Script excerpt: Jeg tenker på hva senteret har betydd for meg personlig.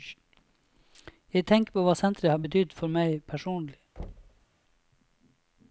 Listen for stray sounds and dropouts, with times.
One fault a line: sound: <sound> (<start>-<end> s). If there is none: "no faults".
sound: thud (4.0-4.5 s)